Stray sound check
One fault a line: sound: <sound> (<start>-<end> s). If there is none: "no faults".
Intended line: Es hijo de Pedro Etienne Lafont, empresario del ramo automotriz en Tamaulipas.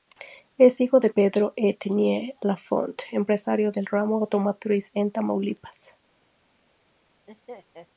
sound: laugh (7.3-7.9 s)